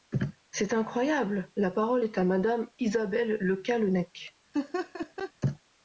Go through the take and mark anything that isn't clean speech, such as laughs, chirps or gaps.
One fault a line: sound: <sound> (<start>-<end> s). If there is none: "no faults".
sound: laugh (4.5-5.3 s)